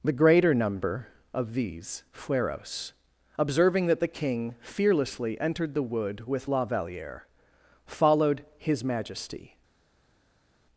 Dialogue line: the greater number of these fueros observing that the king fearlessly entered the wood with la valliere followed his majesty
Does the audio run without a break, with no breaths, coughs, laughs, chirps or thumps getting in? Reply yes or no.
yes